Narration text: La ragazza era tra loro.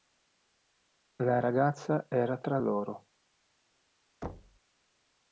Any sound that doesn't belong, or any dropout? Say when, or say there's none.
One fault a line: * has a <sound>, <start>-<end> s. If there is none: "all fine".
* has a thud, 4.2-4.6 s